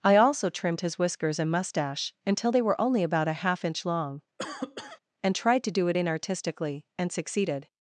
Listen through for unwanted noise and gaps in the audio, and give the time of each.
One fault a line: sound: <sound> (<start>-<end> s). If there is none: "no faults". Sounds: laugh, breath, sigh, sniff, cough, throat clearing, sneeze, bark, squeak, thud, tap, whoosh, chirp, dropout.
sound: cough (4.4-5.0 s)